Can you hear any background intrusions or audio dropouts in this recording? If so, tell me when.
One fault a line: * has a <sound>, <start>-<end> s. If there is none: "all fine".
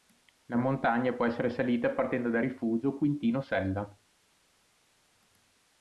all fine